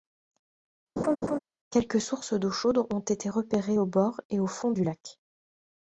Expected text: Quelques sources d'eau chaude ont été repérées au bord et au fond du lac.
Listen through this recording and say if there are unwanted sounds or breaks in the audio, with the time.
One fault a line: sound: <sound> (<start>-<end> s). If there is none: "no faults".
sound: laugh (1.0-1.4 s)